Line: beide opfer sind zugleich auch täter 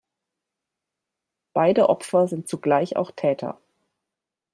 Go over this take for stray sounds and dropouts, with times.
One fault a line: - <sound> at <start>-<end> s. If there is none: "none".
none